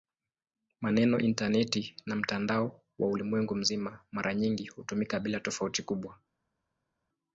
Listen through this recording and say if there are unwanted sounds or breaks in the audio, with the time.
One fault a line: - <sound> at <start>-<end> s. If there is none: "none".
none